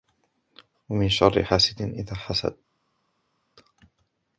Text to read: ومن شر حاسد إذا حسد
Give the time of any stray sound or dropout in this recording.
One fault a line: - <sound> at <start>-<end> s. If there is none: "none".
none